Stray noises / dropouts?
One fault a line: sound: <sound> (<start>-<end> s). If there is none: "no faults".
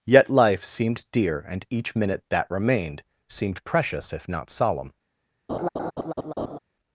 sound: laugh (5.5-6.6 s)